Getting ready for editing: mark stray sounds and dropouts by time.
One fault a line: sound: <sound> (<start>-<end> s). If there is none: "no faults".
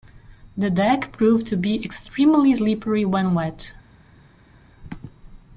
no faults